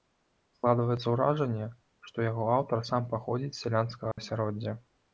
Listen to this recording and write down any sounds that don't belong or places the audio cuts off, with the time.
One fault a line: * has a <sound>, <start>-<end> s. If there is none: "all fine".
* has a dropout, 4.1-4.2 s